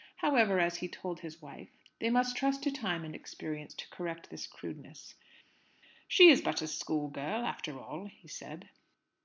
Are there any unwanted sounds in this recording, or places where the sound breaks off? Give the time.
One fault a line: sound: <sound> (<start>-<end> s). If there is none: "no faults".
no faults